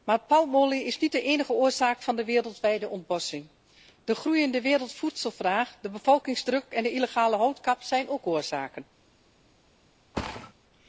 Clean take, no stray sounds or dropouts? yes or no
no